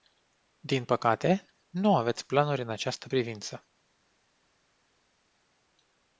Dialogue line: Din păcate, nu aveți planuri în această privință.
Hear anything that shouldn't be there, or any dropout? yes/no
no